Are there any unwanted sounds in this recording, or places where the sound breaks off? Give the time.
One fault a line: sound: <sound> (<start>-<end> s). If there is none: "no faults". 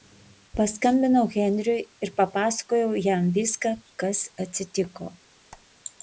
sound: squeak (5.5-5.7 s)